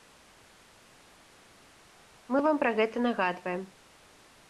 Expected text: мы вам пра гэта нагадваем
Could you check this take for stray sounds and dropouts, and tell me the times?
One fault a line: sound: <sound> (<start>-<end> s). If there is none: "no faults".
no faults